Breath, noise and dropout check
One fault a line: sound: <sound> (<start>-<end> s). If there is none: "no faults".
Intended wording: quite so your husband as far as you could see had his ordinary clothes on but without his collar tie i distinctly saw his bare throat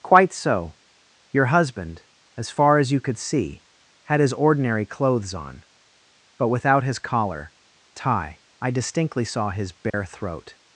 sound: dropout (9.9-9.9 s)